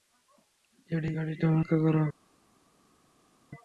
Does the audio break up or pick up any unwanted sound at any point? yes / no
no